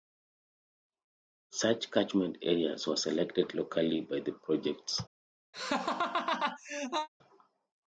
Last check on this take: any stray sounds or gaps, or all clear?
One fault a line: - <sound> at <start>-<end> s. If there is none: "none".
- laugh at 5.5-7.1 s